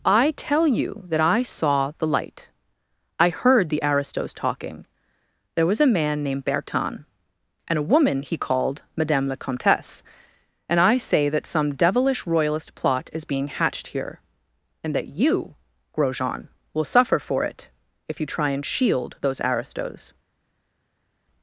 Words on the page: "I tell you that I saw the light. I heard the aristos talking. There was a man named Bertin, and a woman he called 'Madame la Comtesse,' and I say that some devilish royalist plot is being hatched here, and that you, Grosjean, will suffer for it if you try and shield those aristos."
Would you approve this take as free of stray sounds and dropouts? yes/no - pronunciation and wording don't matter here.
yes